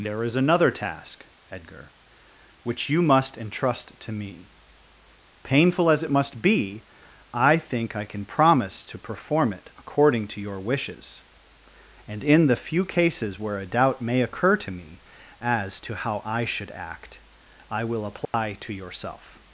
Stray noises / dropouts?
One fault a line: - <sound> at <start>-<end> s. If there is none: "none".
- dropout at 18.2-18.3 s